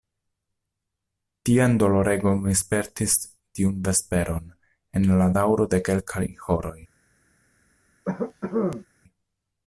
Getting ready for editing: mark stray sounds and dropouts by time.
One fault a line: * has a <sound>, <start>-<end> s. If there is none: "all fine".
* has a cough, 8.0-8.9 s